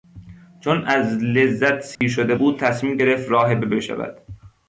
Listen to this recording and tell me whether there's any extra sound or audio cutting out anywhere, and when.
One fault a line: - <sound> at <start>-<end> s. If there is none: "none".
- dropout at 2.0-2.0 s